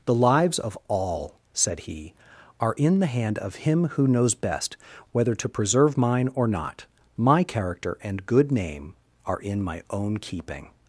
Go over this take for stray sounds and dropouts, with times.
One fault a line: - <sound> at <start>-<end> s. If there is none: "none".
none